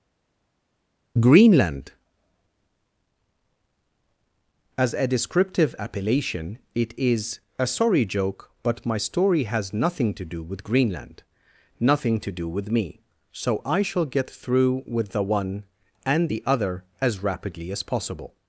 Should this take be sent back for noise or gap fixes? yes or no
no